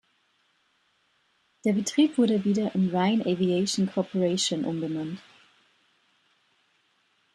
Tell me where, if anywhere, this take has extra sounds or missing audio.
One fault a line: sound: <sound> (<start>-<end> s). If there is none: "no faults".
no faults